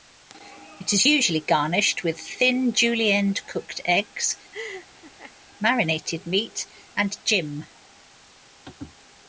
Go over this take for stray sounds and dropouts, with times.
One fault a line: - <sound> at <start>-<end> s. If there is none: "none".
- laugh at 4.5-5.3 s